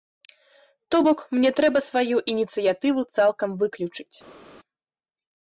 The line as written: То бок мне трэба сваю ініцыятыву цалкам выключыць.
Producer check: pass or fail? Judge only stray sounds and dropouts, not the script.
pass